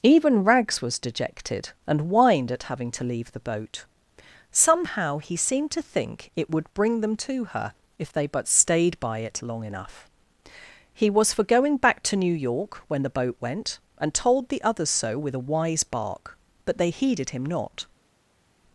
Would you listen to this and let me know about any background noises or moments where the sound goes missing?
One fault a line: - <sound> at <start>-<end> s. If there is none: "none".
none